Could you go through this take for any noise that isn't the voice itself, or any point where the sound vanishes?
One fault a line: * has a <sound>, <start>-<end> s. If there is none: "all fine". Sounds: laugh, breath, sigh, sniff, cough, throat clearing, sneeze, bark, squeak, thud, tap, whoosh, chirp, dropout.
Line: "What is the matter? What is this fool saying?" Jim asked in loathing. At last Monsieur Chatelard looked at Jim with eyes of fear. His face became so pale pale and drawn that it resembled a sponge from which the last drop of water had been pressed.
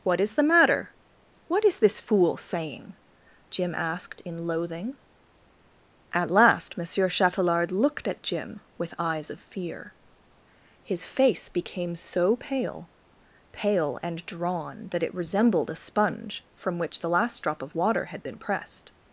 all fine